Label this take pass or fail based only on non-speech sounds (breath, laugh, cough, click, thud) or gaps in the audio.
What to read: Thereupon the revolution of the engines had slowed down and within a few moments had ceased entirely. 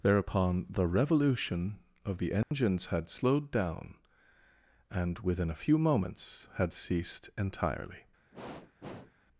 fail